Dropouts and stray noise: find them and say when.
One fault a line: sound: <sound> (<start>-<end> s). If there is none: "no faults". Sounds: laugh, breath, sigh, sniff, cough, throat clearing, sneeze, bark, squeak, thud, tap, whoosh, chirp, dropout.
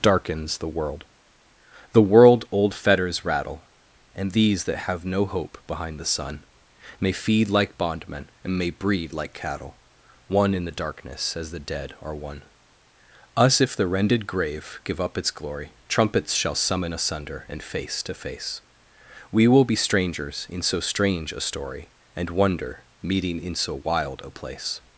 no faults